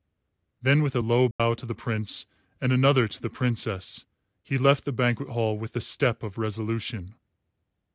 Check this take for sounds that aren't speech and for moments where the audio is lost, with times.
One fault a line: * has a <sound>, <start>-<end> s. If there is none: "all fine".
* has a dropout, 1.3-1.4 s